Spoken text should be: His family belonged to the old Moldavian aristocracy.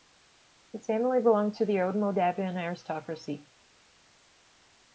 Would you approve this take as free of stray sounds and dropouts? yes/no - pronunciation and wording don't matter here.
yes